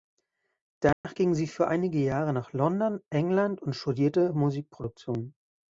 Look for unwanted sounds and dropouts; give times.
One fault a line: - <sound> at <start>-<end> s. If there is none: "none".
- dropout at 0.9-1.0 s